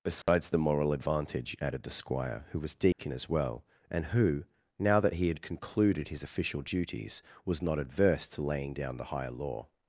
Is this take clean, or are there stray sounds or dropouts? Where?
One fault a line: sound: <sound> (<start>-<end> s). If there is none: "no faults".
sound: dropout (0.2-0.3 s)
sound: dropout (2.9-3.0 s)